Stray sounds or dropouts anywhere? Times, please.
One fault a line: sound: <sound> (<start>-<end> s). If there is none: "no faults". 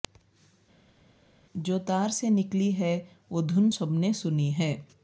no faults